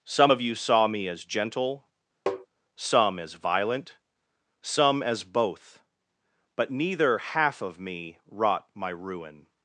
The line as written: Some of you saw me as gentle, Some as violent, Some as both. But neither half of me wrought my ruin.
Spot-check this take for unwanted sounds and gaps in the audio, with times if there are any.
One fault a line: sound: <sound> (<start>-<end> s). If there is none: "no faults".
sound: tap (2.3-2.5 s)